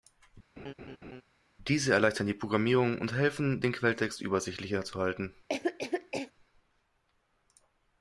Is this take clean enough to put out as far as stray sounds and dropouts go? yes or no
no